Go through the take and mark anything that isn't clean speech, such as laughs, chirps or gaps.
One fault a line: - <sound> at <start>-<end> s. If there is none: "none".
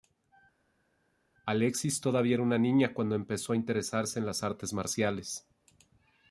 none